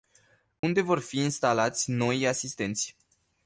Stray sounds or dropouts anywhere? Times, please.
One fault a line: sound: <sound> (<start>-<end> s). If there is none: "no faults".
sound: dropout (0.6-0.6 s)